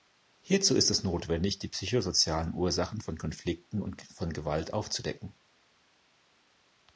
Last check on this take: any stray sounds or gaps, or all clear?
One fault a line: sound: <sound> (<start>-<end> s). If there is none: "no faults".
no faults